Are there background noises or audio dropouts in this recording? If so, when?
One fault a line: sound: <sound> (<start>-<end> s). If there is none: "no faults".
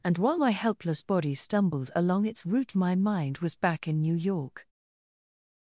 no faults